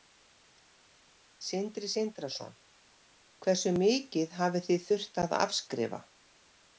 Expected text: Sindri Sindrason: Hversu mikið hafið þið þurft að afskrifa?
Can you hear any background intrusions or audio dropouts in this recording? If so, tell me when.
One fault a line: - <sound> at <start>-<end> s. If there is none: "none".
none